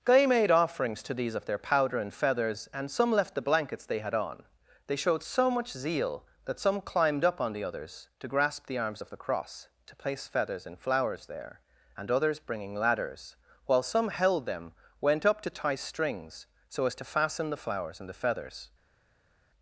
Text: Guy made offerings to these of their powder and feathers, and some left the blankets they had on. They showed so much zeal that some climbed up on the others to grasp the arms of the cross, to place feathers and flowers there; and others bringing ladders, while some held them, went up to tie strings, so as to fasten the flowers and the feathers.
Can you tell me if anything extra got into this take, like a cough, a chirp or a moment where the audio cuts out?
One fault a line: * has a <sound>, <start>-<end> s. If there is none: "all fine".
all fine